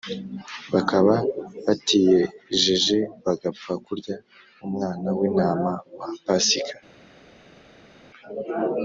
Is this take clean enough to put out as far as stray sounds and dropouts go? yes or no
yes